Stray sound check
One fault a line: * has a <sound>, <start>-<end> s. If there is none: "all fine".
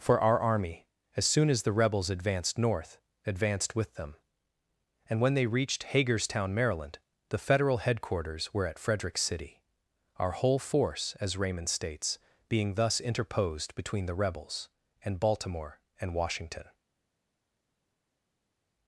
all fine